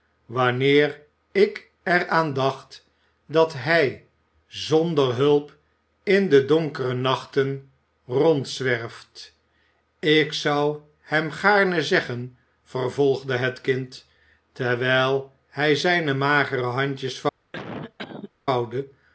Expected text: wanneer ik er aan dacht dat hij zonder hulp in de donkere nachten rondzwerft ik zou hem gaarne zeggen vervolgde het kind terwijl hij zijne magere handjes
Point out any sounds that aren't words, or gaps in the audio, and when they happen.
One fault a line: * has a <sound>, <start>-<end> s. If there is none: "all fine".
* has a cough, 17.5-18.3 s